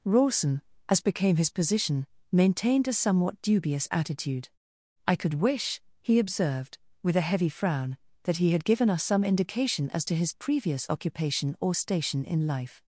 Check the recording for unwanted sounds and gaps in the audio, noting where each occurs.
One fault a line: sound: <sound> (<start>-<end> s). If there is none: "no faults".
no faults